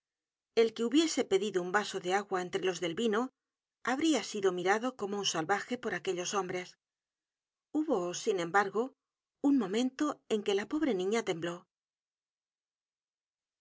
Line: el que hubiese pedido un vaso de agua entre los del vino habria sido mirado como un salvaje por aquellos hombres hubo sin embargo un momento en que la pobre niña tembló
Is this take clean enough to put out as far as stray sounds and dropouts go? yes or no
yes